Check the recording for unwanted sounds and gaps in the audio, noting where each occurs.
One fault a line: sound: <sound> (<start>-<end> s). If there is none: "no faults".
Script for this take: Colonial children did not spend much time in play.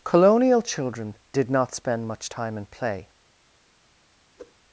sound: whoosh (4.4-4.5 s)